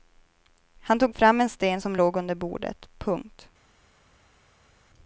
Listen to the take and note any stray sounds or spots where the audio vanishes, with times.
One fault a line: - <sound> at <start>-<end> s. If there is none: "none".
none